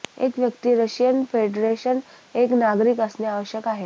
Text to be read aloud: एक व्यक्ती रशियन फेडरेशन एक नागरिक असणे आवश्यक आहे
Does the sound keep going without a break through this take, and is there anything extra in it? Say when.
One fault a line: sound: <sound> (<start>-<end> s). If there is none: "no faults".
no faults